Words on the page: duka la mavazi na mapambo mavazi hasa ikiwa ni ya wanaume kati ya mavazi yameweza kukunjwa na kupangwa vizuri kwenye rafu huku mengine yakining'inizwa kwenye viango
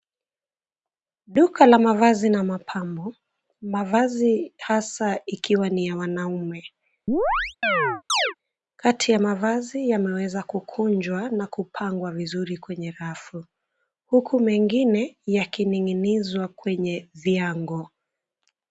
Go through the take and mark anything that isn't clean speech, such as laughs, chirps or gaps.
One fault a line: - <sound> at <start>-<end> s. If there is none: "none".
- chirp at 7.1-8.3 s